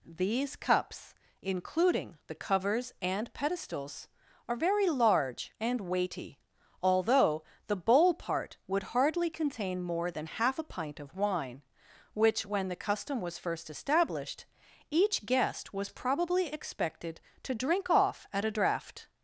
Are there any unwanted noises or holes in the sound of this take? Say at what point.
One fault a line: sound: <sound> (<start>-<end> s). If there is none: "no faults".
no faults